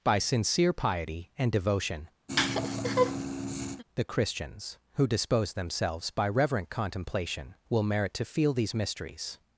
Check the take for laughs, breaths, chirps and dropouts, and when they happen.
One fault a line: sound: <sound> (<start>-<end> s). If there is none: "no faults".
sound: laugh (2.3-3.8 s)